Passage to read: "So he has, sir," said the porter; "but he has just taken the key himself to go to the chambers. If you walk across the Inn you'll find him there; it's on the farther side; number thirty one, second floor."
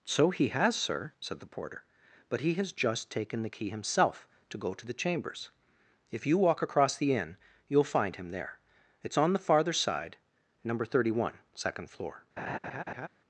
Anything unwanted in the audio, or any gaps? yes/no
yes